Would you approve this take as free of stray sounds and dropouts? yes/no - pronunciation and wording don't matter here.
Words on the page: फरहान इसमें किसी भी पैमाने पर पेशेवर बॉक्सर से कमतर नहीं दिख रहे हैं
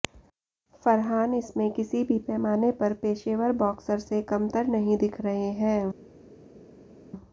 yes